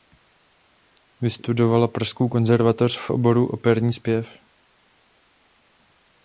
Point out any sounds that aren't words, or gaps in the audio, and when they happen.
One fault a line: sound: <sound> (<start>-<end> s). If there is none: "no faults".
no faults